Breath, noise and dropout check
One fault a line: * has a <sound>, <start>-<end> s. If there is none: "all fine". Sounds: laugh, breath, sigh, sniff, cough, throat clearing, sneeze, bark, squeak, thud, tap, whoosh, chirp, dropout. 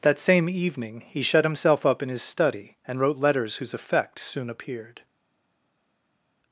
all fine